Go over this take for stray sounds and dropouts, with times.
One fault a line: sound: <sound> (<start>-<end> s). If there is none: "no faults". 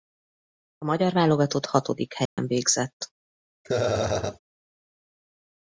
sound: dropout (2.3-2.4 s)
sound: laugh (3.6-4.4 s)